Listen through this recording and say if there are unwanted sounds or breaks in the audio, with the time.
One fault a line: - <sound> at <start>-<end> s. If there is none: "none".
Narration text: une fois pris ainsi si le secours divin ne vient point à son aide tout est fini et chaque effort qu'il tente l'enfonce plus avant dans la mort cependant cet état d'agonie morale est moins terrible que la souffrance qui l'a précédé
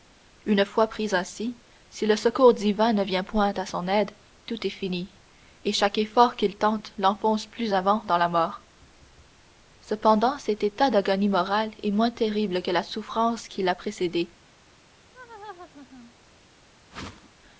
- laugh at 15.1-16.1 s
- whoosh at 16.9-17.3 s